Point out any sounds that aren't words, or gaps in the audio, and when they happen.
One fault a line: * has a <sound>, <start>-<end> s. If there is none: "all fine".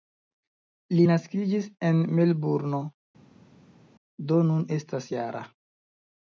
all fine